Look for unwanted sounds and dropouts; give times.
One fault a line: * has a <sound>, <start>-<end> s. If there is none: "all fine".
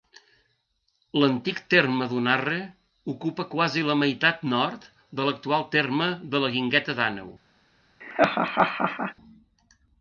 * has a laugh, 8.0-9.1 s